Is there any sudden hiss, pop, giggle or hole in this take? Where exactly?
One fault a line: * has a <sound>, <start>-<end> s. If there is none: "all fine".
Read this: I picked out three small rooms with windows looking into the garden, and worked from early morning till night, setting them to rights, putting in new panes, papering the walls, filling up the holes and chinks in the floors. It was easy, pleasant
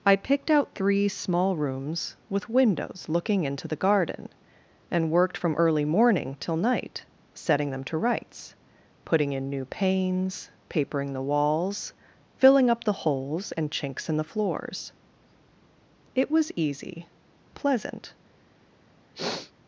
* has a sniff, 19.1-19.5 s